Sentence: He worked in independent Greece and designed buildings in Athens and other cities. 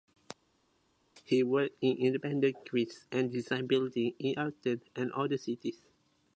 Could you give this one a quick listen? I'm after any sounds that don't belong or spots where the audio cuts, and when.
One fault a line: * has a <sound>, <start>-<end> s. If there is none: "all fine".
all fine